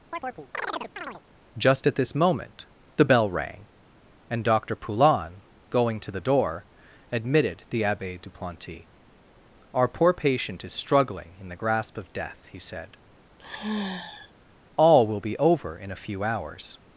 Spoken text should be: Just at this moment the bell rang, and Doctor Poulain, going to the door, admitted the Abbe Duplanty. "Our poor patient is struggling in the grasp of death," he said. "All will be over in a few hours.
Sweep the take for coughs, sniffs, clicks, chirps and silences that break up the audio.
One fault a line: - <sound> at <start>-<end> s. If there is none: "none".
- chirp at 0.1-1.2 s
- sigh at 13.4-14.3 s